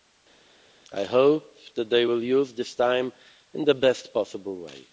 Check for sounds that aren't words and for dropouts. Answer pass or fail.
pass